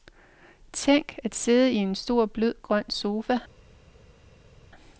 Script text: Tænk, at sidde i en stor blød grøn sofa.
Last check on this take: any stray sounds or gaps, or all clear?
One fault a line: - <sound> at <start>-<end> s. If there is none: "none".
none